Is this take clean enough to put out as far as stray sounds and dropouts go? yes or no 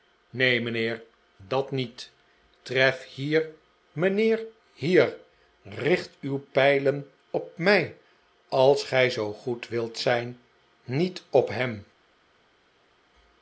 yes